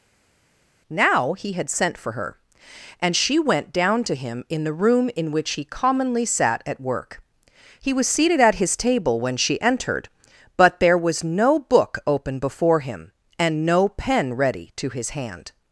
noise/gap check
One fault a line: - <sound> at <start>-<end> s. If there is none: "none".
none